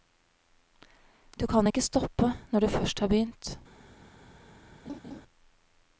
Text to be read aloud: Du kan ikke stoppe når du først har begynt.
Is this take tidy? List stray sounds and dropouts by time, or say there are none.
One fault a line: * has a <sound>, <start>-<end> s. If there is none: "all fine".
* has a laugh, 4.9-5.2 s